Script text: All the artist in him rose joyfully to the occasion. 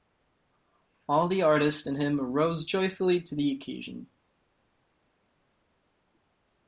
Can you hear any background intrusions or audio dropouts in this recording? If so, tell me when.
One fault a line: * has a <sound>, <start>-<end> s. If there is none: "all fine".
all fine